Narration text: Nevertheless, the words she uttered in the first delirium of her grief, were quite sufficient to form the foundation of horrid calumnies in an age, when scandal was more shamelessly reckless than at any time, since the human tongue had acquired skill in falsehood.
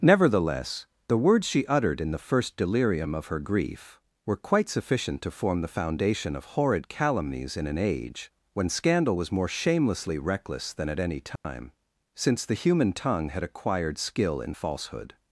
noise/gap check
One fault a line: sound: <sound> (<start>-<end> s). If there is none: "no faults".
sound: dropout (11.4-11.4 s)